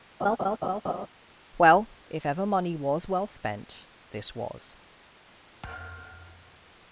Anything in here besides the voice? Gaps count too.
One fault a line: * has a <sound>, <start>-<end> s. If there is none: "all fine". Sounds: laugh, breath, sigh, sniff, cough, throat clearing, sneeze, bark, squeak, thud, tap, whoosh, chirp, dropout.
* has a laugh, 0.2-1.1 s
* has a thud, 5.6-6.7 s